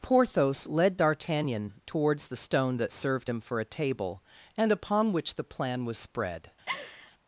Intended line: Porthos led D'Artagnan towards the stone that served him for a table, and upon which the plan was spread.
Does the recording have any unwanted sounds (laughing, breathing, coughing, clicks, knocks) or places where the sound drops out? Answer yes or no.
yes